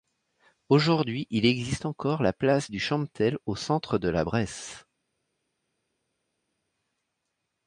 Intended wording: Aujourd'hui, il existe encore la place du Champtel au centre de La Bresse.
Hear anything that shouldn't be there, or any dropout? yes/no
no